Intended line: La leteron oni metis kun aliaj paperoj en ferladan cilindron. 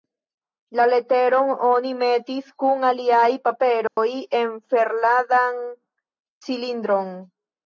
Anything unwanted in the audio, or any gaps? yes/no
yes